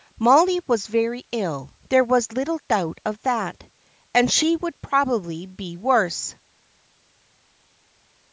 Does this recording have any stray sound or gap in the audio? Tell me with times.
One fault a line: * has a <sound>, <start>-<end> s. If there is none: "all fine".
all fine